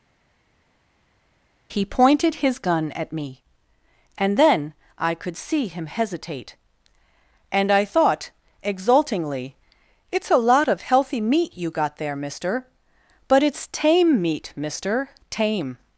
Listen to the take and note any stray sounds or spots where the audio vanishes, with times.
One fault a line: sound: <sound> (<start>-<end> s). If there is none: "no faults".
no faults